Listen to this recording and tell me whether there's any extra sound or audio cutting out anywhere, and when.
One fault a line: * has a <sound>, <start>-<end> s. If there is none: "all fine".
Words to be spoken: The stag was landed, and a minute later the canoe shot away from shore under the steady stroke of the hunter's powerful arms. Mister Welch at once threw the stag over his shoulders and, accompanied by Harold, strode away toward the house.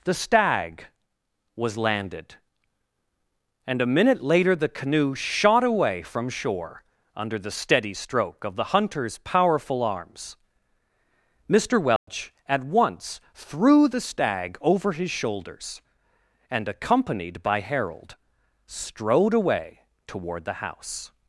* has a dropout, 12.0-12.1 s